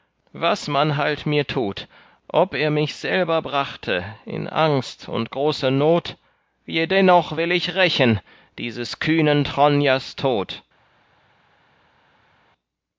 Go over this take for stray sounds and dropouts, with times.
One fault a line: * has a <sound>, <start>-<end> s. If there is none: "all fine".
all fine